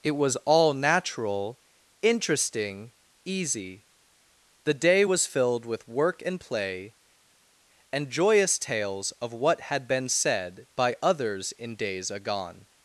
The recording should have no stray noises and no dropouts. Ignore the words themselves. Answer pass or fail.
pass